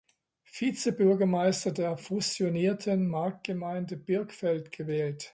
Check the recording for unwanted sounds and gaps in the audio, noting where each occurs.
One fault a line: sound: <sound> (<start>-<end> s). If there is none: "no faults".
no faults